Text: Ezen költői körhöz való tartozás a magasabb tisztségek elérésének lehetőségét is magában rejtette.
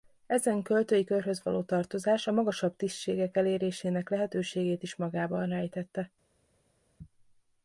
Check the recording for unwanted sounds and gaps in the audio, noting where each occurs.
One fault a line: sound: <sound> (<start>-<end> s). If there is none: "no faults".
no faults